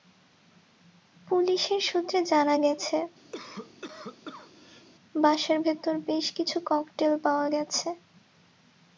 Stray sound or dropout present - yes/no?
yes